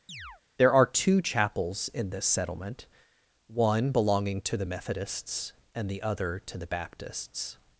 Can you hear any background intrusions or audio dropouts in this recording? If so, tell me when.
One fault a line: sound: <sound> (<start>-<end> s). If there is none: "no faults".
sound: chirp (0.1-0.4 s)